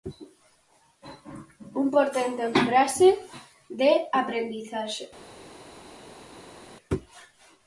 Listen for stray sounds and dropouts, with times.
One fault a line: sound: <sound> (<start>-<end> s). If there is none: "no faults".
no faults